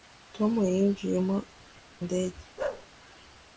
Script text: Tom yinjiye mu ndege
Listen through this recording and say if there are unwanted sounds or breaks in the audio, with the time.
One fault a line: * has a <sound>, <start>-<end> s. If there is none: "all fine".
* has a bark, 2.6-2.9 s